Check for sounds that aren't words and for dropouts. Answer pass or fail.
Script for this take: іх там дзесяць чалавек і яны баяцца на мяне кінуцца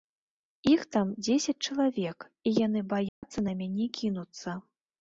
fail